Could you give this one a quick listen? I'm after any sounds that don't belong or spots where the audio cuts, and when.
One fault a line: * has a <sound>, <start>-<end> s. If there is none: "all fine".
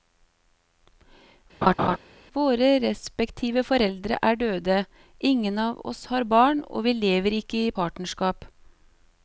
* has a laugh, 1.6-2.0 s